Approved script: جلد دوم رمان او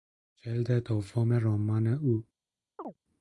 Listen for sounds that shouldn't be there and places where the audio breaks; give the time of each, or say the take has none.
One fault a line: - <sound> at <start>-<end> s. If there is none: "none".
- chirp at 2.8-3.0 s